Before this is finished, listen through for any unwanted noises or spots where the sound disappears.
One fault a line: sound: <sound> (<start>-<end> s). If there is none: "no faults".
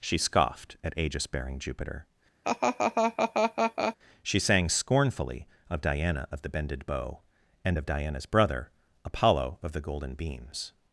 sound: laugh (2.4-4.0 s)